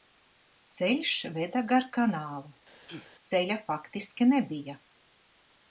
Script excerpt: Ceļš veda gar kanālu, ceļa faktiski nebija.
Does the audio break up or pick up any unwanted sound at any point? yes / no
yes